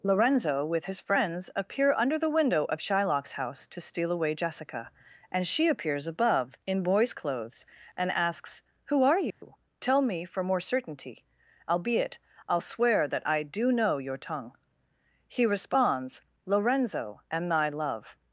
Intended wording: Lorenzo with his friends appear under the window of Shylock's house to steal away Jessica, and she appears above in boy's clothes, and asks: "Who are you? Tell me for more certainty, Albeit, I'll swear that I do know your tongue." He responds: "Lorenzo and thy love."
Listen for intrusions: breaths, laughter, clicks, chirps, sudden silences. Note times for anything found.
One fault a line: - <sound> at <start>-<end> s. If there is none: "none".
- dropout at 9.3-9.4 s